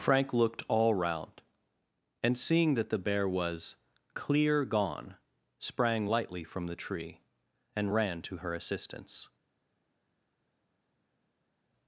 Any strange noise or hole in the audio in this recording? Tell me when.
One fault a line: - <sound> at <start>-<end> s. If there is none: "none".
none